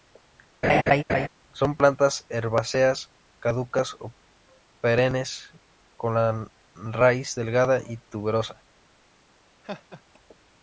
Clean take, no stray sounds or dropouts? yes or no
no